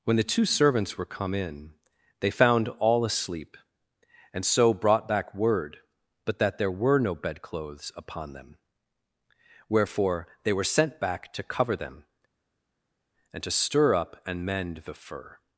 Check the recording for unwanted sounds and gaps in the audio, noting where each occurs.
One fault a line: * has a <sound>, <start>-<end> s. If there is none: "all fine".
all fine